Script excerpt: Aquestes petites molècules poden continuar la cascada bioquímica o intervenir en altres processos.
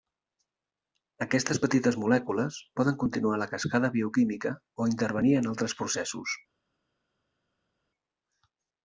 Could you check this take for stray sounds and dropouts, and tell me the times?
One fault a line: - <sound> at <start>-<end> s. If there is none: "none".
none